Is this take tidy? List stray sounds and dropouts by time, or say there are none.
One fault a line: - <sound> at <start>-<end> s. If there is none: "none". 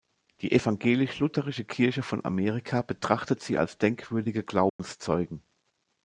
- dropout at 4.7-4.8 s